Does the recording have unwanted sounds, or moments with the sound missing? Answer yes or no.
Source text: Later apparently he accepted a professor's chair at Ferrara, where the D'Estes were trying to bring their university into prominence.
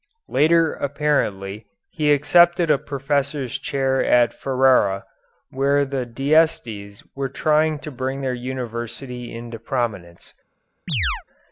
yes